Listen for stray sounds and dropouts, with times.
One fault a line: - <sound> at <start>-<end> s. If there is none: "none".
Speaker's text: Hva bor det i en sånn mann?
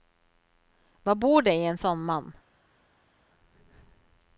none